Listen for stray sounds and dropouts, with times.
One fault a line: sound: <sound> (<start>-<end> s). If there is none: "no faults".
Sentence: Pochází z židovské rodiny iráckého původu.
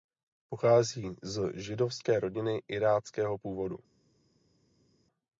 no faults